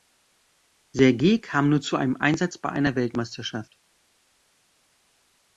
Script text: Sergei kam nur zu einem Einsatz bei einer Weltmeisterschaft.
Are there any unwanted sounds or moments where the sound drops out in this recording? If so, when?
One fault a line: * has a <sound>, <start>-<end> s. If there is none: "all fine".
all fine